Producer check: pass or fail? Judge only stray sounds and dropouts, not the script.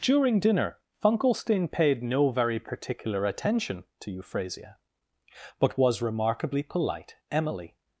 pass